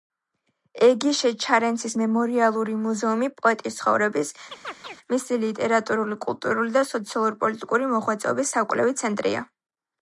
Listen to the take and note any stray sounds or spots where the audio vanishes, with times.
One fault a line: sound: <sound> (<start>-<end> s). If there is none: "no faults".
sound: chirp (4.5-5.0 s)